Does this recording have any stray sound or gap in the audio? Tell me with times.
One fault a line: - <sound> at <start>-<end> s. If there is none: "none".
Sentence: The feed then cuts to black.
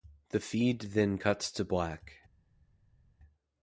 none